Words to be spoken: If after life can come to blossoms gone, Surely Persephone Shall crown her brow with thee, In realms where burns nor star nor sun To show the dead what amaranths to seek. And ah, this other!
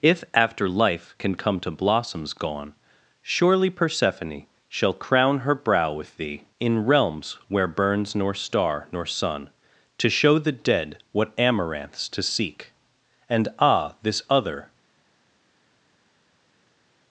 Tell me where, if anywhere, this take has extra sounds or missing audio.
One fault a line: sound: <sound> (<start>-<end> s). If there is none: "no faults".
no faults